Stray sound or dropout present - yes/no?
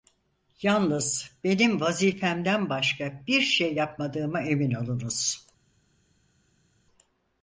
no